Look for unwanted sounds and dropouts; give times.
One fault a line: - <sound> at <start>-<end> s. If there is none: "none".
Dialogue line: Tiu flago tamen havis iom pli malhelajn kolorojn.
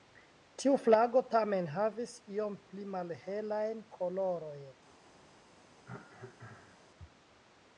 - cough at 5.8-6.9 s